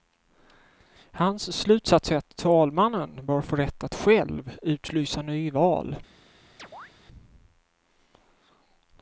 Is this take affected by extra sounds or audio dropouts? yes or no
yes